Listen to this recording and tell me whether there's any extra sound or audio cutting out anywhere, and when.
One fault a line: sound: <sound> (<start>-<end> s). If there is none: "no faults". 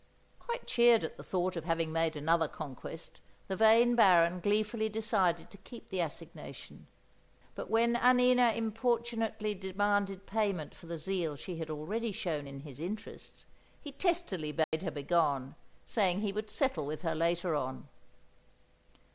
sound: dropout (14.6-14.7 s)